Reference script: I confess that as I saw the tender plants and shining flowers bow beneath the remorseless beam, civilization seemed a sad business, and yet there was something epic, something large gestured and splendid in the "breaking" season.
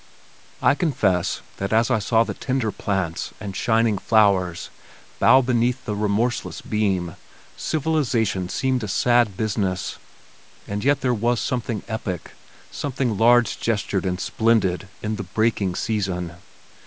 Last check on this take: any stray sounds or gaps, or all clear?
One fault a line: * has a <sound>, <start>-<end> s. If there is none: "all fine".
all fine